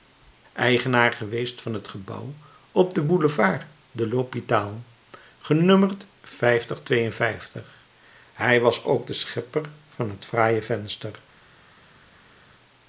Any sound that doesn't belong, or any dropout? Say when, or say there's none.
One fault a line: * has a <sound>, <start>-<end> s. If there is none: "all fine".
all fine